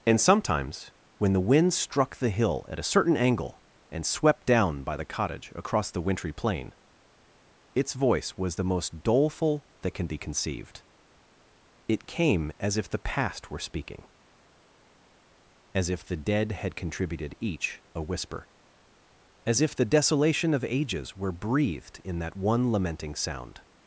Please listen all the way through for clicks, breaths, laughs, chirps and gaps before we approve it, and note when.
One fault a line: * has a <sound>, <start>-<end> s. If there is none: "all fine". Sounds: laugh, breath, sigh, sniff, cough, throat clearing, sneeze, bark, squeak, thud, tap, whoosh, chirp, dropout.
all fine